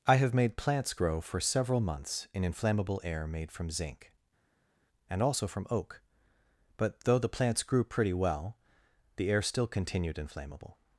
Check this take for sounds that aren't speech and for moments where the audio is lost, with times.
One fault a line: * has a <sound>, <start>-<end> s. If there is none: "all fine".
all fine